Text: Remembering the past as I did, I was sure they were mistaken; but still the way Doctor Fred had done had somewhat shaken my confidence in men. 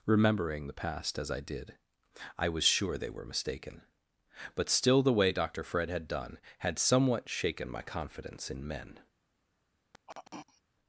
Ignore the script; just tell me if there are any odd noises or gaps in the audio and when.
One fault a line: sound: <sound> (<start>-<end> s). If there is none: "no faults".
sound: throat clearing (9.9-10.6 s)